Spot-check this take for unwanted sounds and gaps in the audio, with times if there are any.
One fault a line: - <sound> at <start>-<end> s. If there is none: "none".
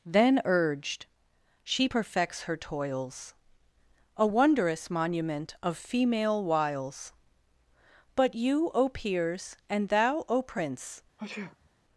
- sneeze at 11.2-11.7 s